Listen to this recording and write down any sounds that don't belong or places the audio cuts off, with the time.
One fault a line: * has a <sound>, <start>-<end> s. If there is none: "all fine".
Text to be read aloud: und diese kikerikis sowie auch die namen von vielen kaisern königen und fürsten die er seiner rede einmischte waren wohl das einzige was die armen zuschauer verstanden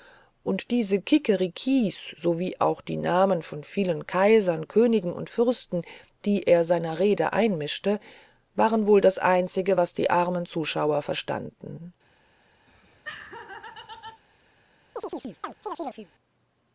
* has a laugh, 12.7-14.2 s
* has a chirp, 15.0-16.1 s